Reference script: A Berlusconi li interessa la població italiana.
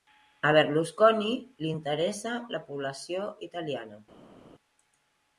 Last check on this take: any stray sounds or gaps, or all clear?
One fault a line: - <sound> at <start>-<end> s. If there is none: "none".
none